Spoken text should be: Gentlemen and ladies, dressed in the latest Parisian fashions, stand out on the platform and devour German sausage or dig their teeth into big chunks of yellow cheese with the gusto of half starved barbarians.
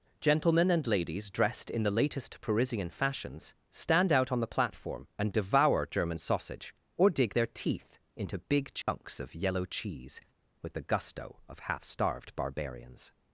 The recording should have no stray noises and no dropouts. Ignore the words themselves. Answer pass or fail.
fail